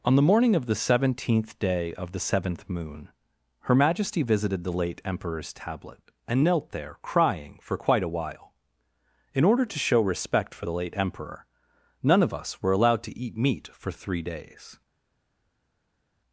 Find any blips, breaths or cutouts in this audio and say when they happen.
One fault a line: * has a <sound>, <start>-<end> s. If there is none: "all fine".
all fine